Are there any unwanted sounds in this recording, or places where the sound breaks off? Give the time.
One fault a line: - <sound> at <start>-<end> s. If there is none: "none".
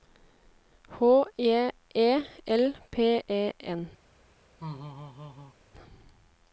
- laugh at 4.6-5.6 s